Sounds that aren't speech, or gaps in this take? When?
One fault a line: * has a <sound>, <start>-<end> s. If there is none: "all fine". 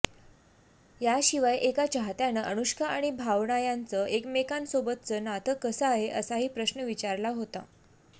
all fine